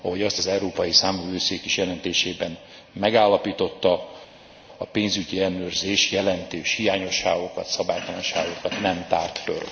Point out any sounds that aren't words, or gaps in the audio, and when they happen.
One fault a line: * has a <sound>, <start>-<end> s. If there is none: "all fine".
all fine